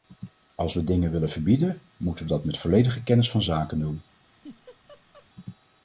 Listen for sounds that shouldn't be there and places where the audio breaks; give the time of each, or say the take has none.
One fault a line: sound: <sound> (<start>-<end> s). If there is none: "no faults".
sound: laugh (4.2-5.3 s)